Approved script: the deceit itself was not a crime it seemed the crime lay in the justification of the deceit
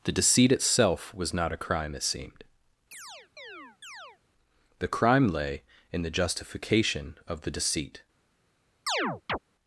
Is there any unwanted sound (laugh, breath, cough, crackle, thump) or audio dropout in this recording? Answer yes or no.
yes